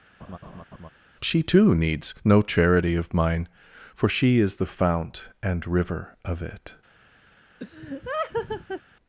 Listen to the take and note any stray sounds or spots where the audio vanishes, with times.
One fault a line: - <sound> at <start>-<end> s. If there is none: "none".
- laugh at 0.2-0.9 s
- laugh at 7.6-8.8 s